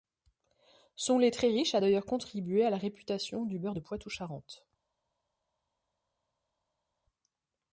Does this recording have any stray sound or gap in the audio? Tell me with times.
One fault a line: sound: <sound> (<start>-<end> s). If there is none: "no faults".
no faults